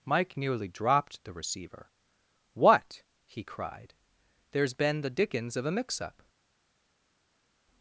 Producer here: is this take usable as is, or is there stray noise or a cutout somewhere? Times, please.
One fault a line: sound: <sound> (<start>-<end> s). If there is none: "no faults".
no faults